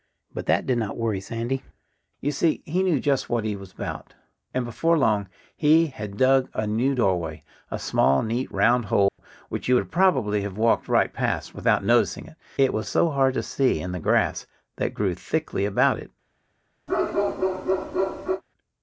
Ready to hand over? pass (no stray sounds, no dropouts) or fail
fail